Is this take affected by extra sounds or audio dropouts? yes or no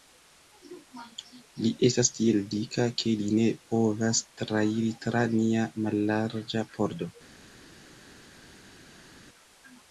no